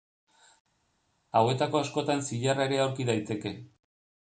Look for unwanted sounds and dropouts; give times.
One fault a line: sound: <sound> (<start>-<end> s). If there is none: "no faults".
no faults